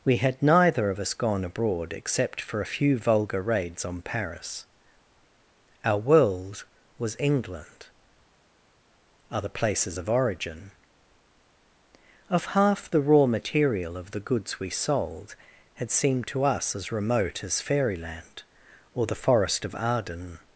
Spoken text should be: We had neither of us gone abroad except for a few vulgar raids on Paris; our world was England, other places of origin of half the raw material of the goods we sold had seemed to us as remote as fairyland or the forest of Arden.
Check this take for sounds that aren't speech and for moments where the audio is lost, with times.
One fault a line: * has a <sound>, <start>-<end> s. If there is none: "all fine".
all fine